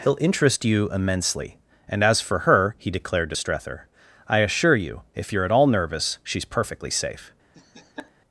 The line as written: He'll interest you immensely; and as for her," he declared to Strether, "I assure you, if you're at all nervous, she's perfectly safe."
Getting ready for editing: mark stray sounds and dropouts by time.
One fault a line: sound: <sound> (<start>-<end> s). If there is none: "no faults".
sound: laugh (7.5-8.1 s)